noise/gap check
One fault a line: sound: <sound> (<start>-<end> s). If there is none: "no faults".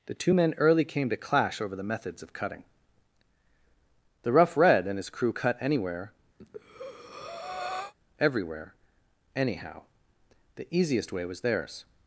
sound: breath (6.4-7.9 s)